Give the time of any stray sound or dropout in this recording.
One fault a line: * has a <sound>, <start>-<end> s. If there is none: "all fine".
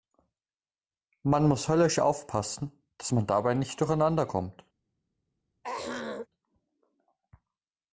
* has a throat clearing, 5.6-6.3 s